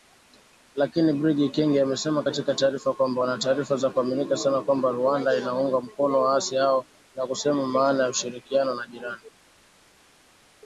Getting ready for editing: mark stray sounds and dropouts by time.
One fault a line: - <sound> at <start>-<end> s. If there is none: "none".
none